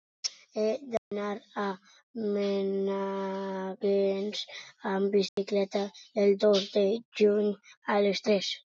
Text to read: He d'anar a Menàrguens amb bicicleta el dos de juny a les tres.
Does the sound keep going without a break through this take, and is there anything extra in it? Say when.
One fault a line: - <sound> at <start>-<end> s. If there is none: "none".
- dropout at 1.0-1.1 s
- dropout at 5.3-5.4 s